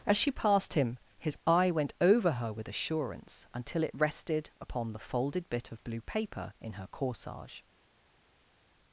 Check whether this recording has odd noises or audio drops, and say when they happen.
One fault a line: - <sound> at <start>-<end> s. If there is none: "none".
none